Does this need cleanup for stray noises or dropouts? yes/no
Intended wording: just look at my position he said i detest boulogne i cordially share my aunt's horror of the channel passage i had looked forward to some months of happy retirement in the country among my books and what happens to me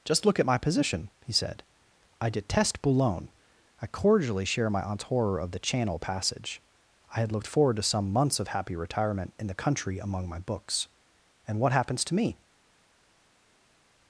no